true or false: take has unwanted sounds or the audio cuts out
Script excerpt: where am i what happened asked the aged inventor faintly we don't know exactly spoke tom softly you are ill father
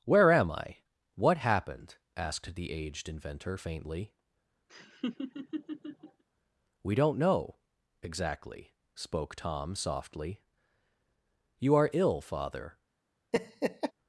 true